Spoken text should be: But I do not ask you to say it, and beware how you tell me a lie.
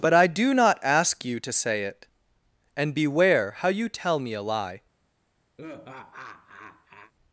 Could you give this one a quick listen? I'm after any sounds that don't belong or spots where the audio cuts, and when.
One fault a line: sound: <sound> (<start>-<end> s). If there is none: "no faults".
sound: laugh (5.6-7.1 s)